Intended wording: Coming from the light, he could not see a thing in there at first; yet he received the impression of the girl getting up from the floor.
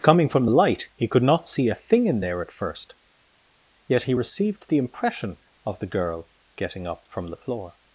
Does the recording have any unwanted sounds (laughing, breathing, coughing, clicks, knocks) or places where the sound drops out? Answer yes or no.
no